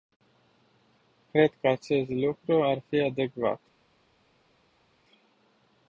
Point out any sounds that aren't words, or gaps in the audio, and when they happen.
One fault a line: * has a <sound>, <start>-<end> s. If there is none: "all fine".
all fine